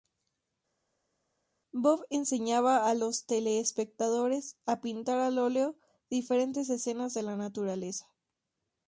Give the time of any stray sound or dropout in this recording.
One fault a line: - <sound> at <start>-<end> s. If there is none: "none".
none